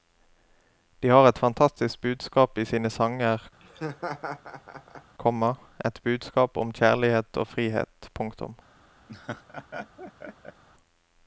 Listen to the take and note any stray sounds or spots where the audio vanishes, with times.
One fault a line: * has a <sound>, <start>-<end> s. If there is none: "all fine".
* has a laugh, 3.6-5.2 s
* has a laugh, 9.1-10.6 s